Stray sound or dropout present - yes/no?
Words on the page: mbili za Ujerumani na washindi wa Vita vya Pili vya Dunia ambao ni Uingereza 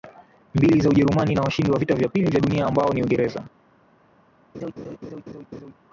yes